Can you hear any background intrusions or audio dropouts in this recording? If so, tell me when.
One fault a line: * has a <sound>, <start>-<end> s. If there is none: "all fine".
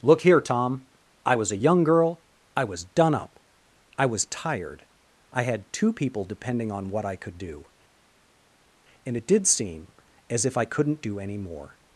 all fine